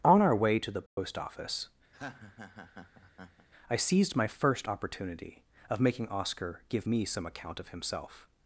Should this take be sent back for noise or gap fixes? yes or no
yes